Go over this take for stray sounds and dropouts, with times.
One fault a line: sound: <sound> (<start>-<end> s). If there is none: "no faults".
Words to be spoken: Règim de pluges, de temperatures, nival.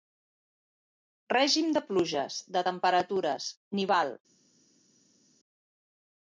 no faults